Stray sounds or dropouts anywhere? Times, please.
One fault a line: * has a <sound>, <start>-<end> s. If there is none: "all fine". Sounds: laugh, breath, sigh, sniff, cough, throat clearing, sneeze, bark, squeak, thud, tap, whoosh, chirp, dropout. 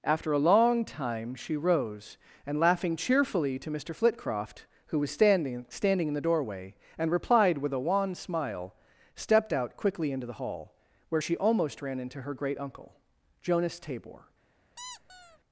* has a squeak, 14.8-15.4 s